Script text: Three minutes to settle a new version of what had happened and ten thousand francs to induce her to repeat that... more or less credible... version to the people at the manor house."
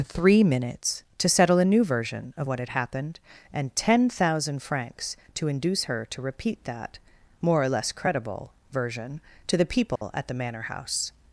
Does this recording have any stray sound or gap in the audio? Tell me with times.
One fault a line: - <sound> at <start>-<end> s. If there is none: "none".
- dropout at 10.0-10.0 s